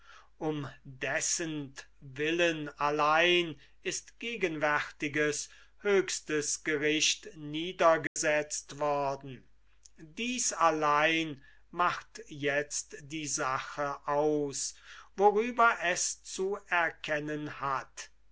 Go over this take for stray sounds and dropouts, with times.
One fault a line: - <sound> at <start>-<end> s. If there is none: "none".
- dropout at 8.1-8.2 s